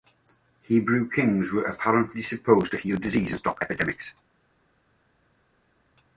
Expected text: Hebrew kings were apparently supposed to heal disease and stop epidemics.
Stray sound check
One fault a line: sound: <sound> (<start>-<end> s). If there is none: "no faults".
no faults